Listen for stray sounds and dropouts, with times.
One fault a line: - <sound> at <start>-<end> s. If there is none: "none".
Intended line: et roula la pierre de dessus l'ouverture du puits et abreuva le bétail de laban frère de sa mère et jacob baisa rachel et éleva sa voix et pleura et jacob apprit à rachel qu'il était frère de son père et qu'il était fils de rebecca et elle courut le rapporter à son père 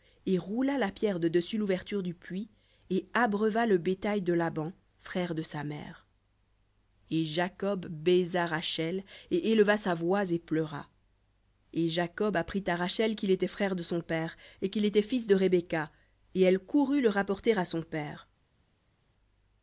none